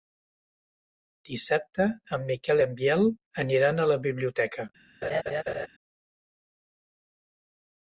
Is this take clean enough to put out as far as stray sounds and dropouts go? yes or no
no